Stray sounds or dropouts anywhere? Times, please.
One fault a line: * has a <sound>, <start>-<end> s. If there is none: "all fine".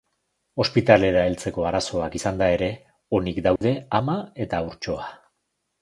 * has a dropout, 3.6-3.6 s